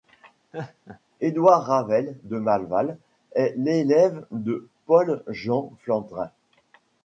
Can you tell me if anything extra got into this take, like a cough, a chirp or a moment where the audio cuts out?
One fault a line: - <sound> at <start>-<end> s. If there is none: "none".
- laugh at 0.5-1.0 s